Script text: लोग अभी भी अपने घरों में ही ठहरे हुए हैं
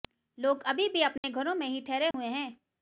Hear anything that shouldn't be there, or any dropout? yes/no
yes